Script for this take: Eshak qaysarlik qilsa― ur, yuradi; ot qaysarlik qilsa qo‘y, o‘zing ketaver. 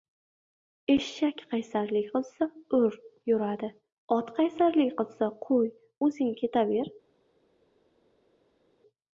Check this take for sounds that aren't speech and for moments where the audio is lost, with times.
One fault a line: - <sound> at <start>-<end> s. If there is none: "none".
none